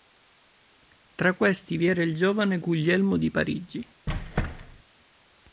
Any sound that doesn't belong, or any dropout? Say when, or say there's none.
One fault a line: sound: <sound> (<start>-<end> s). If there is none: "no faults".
sound: squeak (4.1-4.8 s)